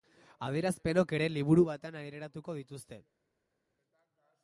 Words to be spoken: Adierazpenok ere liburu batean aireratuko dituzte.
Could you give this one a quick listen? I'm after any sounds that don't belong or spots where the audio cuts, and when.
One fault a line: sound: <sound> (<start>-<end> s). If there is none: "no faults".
no faults